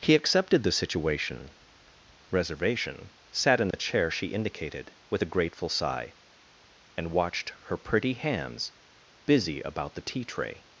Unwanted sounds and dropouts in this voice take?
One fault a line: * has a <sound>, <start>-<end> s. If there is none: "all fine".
* has a dropout, 3.7-3.7 s